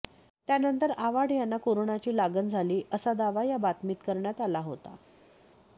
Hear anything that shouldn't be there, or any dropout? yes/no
no